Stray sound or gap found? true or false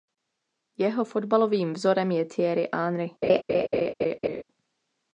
true